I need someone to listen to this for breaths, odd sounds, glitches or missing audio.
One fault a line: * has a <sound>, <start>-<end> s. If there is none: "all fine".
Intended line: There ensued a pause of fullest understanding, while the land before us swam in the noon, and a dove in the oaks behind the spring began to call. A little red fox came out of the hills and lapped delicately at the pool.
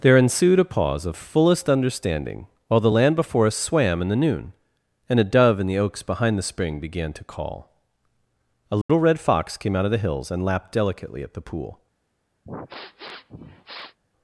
* has a dropout, 8.8-8.9 s
* has a sniff, 12.4-14.0 s